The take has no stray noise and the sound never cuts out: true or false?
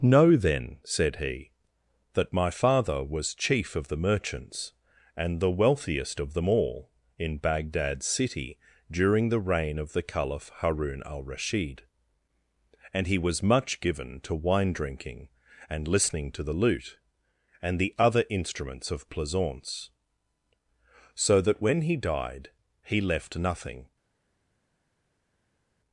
true